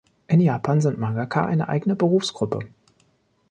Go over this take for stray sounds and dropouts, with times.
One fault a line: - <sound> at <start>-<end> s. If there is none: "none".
none